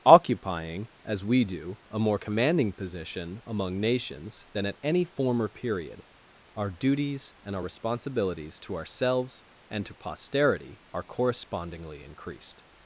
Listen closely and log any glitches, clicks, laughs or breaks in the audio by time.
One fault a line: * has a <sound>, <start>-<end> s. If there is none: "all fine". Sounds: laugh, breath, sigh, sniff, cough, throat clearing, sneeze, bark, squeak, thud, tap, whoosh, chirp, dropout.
all fine